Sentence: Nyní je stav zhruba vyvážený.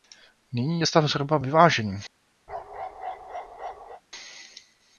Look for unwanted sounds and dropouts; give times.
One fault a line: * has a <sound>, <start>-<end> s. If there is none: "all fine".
* has a bark, 2.5-4.0 s